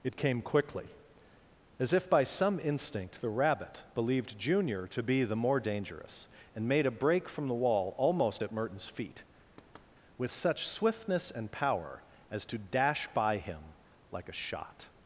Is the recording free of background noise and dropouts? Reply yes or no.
no